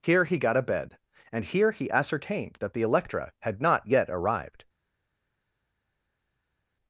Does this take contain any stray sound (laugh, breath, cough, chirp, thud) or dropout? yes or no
no